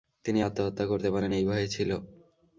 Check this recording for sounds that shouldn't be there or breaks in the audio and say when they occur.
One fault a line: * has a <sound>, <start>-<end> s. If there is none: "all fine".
all fine